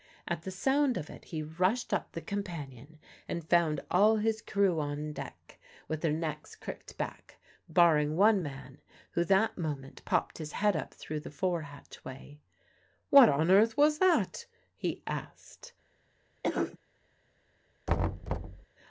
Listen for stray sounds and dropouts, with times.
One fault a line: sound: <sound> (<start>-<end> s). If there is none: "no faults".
sound: cough (16.4-16.8 s)
sound: thud (17.9-18.7 s)